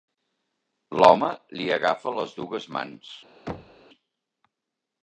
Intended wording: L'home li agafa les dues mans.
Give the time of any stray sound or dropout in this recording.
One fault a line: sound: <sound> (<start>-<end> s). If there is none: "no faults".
sound: thud (3.5-3.8 s)